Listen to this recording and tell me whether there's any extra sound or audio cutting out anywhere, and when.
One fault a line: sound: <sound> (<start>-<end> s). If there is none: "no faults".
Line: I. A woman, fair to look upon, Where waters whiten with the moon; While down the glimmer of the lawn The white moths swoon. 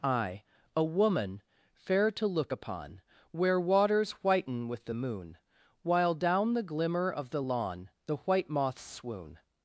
no faults